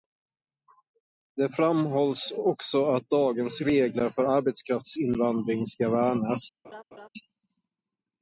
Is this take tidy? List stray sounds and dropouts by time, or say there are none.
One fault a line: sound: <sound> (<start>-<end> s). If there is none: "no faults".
sound: laugh (6.6-7.1 s)